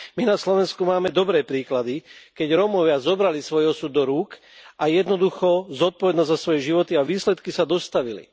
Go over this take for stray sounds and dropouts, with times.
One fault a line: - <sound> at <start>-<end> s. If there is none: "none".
none